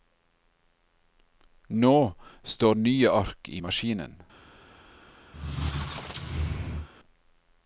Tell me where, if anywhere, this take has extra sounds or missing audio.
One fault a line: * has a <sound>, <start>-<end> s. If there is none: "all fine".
* has a squeak, 5.3-6.9 s